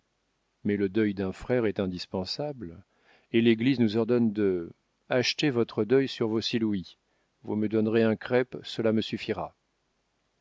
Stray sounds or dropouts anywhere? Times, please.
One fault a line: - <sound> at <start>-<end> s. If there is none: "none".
none